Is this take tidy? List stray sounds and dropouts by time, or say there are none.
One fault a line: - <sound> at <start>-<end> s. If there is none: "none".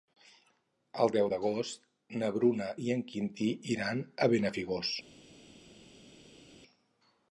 none